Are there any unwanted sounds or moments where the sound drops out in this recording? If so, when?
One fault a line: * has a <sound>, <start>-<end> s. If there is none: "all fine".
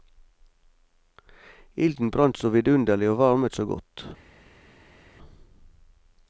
all fine